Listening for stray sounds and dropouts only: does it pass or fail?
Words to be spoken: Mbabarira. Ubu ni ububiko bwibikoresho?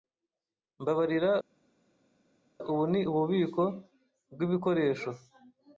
pass